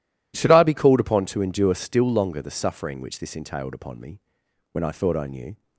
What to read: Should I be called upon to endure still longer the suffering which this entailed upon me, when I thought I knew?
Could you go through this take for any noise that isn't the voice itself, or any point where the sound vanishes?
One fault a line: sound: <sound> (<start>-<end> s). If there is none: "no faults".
no faults